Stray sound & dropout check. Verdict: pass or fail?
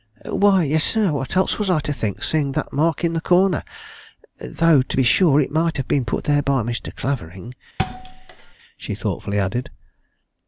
fail